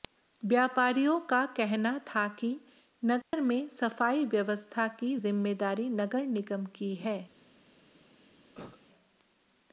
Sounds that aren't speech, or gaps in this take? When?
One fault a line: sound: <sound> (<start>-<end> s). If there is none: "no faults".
sound: dropout (3.2-3.3 s)
sound: cough (8.5-8.8 s)